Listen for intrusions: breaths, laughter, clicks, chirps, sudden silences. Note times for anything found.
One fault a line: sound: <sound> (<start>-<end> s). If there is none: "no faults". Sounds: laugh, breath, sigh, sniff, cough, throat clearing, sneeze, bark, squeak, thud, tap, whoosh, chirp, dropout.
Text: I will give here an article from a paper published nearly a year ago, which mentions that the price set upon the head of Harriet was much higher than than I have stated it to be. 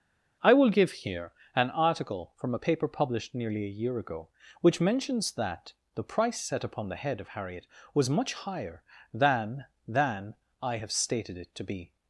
no faults